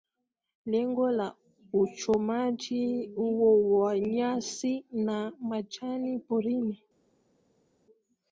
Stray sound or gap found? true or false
false